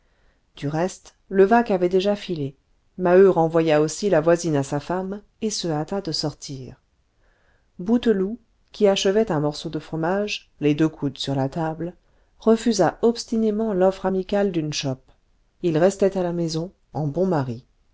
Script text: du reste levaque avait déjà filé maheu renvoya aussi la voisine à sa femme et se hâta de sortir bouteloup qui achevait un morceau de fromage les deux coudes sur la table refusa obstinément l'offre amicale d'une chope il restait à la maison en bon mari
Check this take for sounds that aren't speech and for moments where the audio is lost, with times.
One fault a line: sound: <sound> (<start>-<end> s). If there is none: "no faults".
no faults